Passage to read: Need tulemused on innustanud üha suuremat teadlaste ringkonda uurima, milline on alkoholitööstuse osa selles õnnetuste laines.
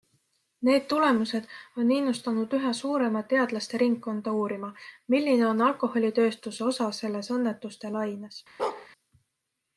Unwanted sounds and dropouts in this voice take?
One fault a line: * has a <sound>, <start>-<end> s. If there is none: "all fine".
* has a bark, 8.6-8.9 s